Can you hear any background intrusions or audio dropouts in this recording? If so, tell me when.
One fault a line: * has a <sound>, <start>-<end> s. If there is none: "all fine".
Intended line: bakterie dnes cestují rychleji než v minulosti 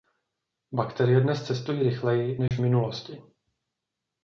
* has a dropout, 2.5-2.5 s